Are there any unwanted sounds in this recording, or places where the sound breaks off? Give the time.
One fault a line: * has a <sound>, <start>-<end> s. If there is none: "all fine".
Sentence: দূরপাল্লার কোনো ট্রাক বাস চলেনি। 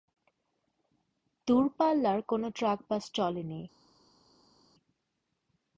all fine